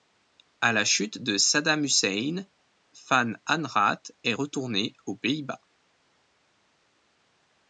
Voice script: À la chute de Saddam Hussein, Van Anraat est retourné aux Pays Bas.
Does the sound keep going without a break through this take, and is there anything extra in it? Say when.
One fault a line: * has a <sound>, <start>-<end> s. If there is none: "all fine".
all fine